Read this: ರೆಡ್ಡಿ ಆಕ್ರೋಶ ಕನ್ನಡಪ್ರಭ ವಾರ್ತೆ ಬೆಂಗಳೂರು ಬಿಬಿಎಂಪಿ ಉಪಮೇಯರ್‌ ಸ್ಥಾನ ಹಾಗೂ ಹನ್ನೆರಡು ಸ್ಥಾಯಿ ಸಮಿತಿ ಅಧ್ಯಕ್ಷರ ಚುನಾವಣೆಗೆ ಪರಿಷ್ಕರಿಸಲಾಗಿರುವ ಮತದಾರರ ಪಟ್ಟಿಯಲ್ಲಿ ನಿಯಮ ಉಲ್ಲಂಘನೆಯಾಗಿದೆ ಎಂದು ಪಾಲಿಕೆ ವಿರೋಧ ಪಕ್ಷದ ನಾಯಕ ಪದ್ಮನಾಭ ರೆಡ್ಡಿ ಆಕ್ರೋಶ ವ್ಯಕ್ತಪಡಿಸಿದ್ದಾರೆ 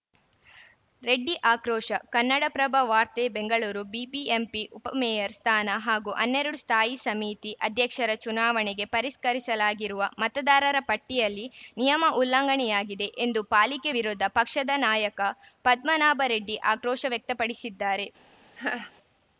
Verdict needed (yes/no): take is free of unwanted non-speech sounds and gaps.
no